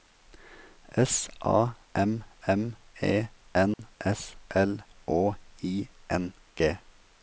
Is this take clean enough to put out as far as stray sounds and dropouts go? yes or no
no